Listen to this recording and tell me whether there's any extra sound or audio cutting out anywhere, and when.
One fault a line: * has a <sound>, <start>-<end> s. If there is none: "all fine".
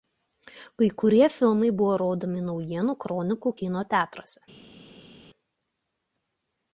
all fine